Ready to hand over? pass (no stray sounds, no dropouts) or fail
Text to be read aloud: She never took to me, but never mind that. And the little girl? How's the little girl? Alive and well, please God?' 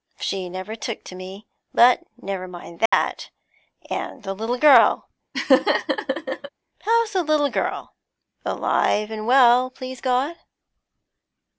fail